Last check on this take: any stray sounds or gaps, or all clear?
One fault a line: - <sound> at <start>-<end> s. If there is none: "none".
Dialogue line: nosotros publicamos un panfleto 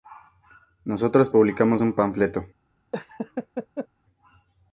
- laugh at 2.9-3.9 s